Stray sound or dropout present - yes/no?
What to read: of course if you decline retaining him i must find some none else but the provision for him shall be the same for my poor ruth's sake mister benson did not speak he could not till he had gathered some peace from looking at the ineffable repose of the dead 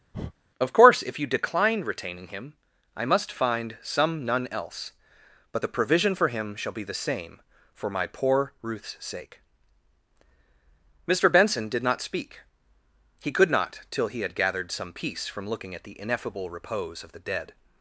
yes